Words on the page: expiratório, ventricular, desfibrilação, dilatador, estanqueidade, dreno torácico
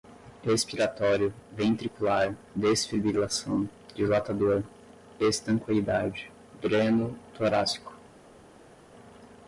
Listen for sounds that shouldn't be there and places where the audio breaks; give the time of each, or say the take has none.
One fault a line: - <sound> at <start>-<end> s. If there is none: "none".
none